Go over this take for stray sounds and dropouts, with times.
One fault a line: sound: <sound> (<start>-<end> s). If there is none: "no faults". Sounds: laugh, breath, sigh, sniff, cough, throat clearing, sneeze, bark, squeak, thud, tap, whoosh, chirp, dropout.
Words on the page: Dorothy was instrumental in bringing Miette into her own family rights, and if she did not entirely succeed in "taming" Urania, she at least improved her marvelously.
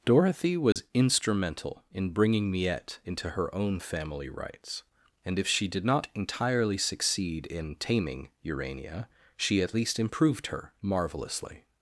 sound: dropout (0.7-0.8 s)